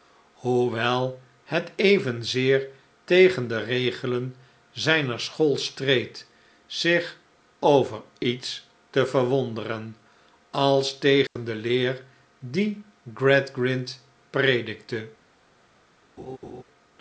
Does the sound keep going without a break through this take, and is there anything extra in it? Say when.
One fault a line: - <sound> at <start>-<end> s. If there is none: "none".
- dropout at 11.3-11.4 s
- laugh at 16.2-16.6 s